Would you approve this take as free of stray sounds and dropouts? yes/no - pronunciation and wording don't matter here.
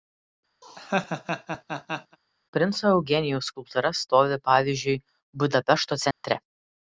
no